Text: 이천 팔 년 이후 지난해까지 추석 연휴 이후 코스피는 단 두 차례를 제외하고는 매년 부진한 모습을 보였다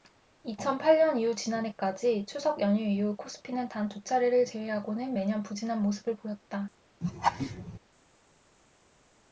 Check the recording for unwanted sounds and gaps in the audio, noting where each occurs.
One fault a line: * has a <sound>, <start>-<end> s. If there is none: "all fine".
* has a laugh, 7.0-7.8 s